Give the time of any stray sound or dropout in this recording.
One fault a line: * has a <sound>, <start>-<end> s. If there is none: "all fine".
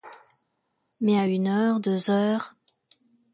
all fine